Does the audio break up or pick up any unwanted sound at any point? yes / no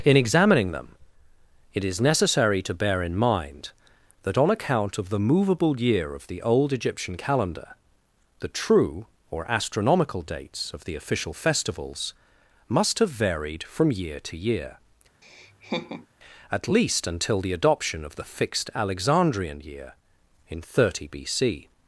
yes